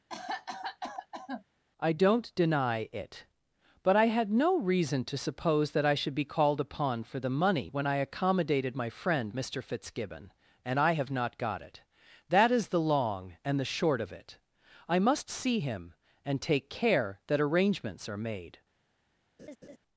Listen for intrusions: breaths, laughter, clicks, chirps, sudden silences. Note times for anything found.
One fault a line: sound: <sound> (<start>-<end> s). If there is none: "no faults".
sound: cough (0.1-1.5 s)
sound: laugh (19.4-19.8 s)